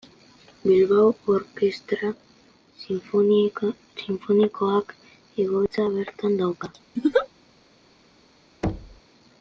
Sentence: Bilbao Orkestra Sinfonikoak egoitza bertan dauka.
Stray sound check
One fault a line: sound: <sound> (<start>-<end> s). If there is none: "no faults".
sound: laugh (7.0-7.3 s)
sound: thud (8.6-9.0 s)